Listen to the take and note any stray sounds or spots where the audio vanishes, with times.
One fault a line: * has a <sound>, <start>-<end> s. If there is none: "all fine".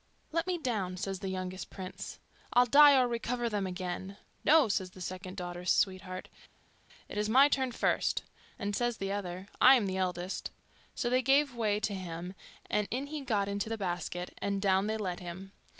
all fine